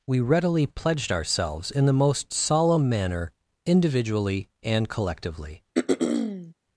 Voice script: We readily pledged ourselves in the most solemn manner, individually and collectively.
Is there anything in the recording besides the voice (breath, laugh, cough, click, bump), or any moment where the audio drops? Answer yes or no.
yes